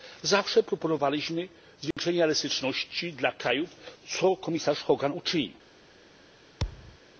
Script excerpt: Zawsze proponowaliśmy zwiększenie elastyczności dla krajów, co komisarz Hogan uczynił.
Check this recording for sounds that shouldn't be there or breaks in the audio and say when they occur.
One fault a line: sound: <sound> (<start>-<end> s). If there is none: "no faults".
sound: dropout (1.9-2.0 s)
sound: thud (6.6-7.0 s)